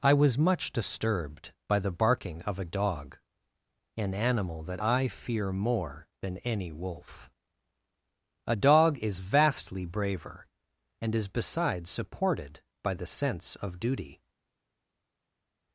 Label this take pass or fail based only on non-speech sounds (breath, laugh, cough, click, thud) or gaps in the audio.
pass